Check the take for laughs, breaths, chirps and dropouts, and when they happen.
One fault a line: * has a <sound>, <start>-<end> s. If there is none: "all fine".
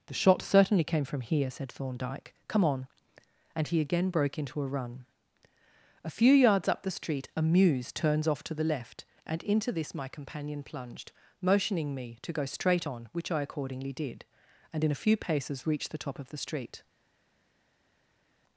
all fine